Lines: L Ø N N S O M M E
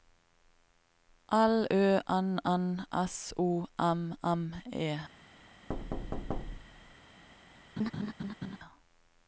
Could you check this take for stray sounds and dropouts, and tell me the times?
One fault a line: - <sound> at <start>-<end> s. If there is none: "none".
- thud at 5.7-7.0 s
- laugh at 7.8-8.6 s